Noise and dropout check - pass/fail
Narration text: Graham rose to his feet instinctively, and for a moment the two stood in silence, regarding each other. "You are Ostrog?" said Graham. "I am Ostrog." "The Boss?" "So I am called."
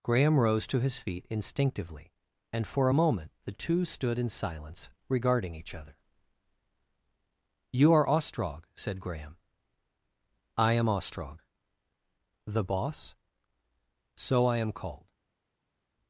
pass